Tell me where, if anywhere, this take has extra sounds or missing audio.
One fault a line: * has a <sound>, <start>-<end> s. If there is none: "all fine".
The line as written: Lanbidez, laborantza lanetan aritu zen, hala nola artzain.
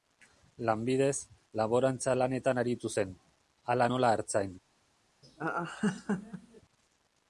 * has a laugh, 5.2-6.6 s